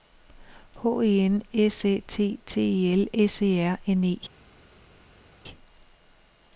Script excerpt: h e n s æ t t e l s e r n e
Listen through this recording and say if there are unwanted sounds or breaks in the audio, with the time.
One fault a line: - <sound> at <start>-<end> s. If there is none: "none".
none